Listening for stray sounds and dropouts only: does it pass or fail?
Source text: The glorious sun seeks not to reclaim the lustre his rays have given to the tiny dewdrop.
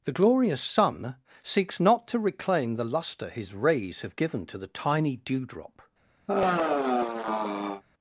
fail